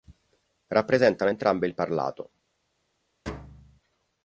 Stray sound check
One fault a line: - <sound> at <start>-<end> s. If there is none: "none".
- thud at 3.3-3.8 s